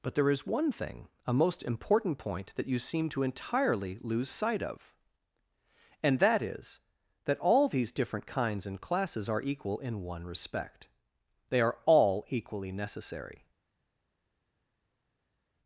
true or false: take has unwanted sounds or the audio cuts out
false